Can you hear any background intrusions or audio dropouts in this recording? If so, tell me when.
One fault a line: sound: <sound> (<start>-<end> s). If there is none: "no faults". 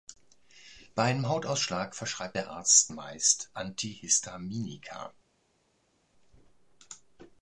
no faults